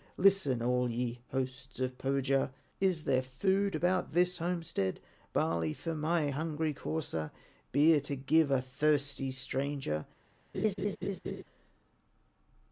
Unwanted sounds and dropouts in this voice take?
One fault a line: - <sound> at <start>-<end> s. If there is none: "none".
- laugh at 10.5-11.4 s